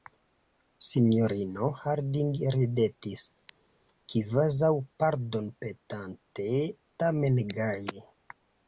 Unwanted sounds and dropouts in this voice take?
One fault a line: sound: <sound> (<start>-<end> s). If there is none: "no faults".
no faults